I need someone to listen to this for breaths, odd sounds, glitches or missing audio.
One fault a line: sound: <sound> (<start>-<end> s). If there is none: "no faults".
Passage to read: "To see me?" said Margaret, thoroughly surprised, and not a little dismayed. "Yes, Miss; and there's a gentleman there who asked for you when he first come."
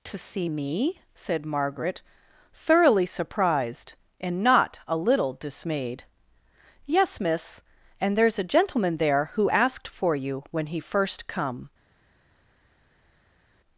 no faults